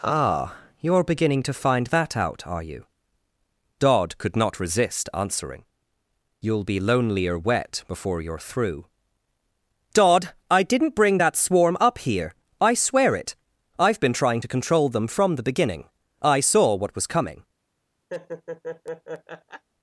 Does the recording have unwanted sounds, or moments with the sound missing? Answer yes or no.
yes